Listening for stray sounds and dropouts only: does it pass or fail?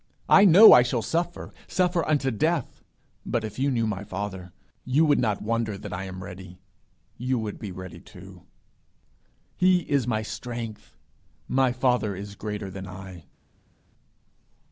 pass